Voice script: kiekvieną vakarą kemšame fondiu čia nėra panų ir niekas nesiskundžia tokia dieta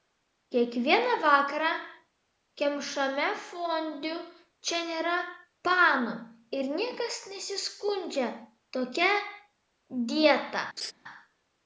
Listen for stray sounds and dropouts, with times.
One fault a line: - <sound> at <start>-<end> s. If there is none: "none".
- laugh at 10.8-10.9 s